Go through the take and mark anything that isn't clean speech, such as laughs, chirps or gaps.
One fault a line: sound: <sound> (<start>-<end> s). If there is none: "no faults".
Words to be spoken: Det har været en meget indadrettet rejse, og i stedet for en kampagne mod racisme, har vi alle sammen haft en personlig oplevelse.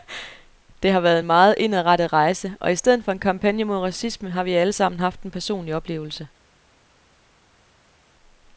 no faults